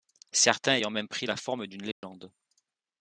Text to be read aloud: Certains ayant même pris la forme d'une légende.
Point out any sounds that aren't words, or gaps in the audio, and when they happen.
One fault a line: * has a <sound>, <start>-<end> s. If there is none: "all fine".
* has a dropout, 1.9-2.0 s